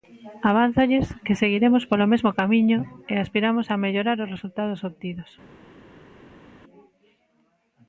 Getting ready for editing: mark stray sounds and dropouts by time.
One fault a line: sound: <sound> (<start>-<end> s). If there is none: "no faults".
no faults